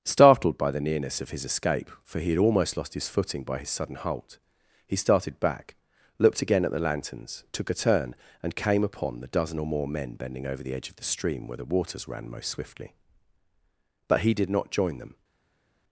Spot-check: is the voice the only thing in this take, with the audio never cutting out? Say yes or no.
yes